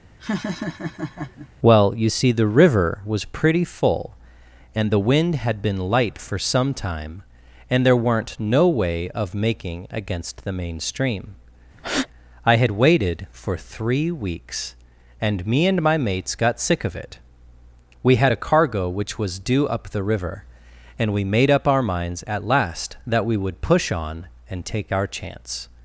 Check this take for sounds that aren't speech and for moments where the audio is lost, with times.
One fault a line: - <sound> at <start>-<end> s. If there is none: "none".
- laugh at 0.2-1.5 s
- breath at 11.8-12.1 s